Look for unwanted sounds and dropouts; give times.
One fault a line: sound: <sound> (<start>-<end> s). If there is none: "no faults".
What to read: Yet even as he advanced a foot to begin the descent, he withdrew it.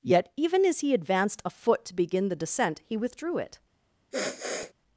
sound: sniff (4.1-4.7 s)